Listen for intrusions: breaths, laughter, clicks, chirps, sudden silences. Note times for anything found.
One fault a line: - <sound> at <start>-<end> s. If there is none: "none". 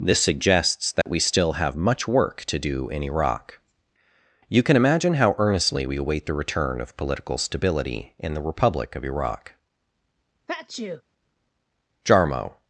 - dropout at 1.0-1.1 s
- sneeze at 10.5-11.0 s